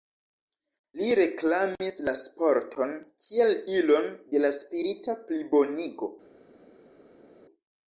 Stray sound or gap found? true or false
false